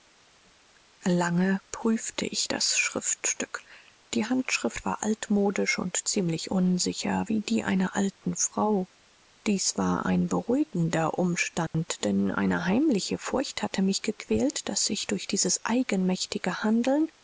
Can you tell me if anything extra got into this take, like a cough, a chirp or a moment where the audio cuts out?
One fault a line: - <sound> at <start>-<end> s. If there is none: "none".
- dropout at 11.7-11.7 s